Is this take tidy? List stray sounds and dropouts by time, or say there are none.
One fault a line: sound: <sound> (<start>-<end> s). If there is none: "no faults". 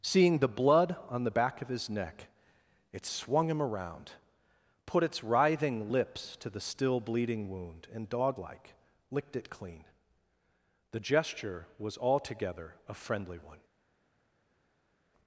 no faults